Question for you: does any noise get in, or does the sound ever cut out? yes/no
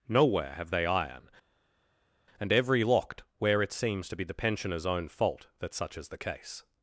no